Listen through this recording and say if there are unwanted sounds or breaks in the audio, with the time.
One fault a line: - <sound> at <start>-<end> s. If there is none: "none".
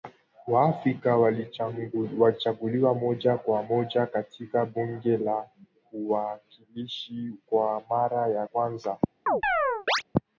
- chirp at 9.3-10.0 s